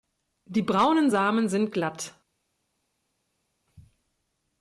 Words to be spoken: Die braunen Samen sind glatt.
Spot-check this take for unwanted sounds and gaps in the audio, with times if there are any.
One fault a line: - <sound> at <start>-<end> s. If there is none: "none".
none